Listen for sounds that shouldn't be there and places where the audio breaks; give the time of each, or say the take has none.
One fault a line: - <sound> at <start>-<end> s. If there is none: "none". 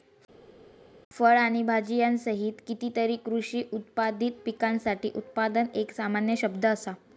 none